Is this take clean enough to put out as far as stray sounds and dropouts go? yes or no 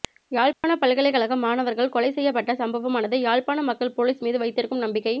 no